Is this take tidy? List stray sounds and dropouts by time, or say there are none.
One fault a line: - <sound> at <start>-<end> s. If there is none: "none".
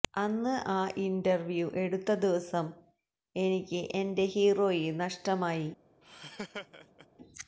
- laugh at 6.0-7.1 s